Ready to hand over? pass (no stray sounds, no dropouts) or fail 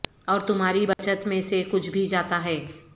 fail